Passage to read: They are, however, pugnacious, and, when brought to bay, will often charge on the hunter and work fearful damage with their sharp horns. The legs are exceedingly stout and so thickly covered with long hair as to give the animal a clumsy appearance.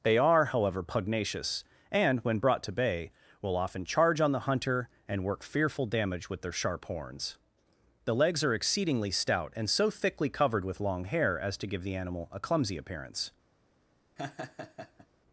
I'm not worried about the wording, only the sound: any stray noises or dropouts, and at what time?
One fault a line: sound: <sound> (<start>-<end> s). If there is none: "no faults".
sound: laugh (14.2-15.1 s)